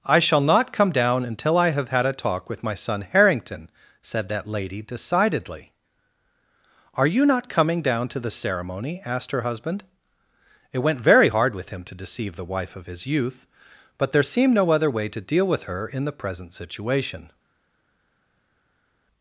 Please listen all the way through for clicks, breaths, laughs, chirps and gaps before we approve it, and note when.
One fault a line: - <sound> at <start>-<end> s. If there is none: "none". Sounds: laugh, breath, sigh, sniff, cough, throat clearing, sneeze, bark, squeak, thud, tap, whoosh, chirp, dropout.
none